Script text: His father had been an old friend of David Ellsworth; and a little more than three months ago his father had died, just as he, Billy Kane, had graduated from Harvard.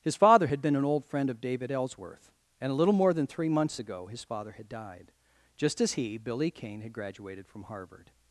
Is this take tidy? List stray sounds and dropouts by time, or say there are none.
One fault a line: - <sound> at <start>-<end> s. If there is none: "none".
none